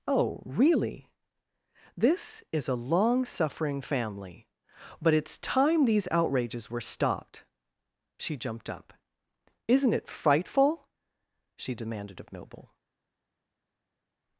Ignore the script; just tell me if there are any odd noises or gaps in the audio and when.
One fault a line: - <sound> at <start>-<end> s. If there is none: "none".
none